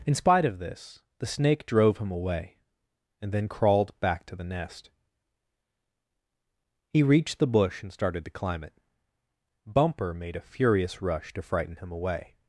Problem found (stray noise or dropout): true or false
false